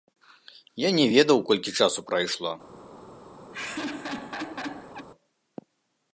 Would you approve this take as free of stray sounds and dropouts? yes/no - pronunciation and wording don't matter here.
no